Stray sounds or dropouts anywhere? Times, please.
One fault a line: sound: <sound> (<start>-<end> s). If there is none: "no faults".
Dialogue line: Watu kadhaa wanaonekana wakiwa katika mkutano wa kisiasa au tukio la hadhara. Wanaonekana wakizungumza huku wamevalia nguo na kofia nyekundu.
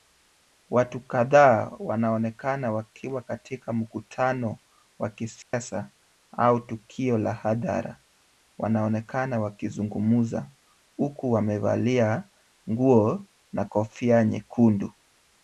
sound: dropout (5.4-5.5 s)